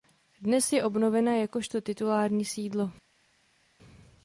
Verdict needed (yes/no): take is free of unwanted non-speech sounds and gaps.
yes